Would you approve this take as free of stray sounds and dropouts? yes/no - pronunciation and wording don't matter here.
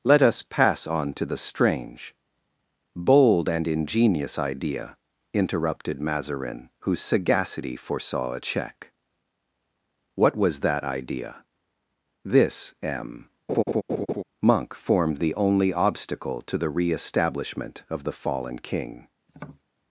no